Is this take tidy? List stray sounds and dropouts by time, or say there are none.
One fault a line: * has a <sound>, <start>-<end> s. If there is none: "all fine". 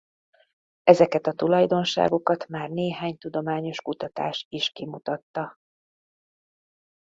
all fine